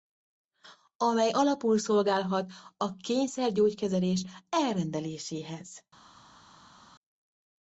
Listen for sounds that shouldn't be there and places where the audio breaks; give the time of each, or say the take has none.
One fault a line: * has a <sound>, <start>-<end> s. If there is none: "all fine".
all fine